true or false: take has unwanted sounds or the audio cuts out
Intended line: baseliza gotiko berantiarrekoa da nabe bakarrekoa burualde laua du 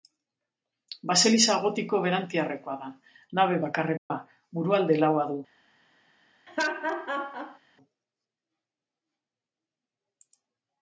true